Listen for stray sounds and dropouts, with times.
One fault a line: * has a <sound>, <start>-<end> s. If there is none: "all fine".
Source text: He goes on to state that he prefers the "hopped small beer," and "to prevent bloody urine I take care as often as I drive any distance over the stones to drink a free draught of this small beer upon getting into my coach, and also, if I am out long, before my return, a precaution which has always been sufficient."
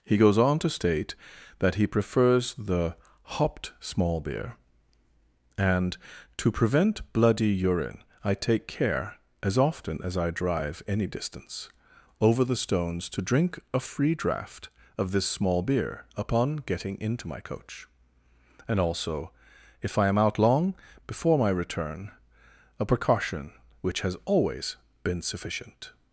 all fine